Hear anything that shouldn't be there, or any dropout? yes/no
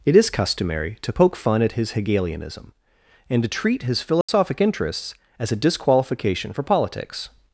yes